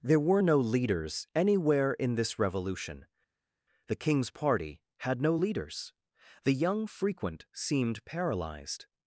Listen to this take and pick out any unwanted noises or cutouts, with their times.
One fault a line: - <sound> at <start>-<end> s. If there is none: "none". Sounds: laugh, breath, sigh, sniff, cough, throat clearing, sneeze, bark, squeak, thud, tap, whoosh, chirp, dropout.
none